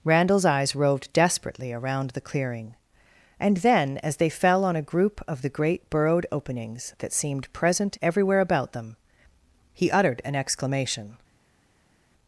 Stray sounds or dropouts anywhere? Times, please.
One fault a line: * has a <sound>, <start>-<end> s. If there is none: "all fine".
all fine